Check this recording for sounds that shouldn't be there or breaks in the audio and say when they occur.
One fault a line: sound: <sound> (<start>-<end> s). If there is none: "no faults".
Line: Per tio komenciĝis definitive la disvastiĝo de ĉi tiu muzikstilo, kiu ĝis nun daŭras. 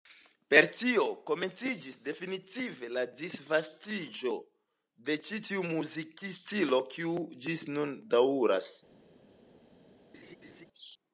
sound: laugh (10.1-10.6 s)